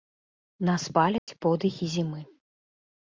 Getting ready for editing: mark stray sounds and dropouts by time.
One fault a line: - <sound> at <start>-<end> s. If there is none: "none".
- dropout at 1.2-1.3 s